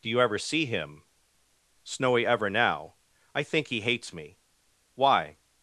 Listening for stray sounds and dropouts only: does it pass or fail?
pass